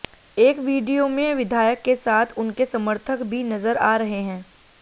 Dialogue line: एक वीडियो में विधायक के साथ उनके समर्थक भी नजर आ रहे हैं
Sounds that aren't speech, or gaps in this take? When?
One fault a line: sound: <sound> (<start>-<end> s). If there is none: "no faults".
no faults